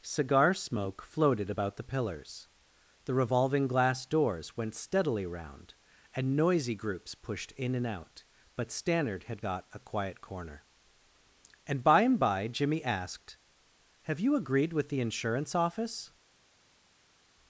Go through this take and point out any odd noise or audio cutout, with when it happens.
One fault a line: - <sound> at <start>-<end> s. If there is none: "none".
none